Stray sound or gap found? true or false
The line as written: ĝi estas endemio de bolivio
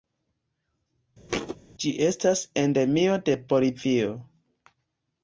true